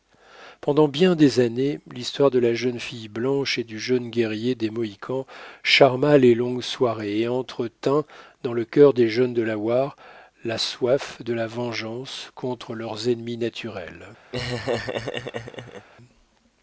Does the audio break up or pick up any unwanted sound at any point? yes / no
yes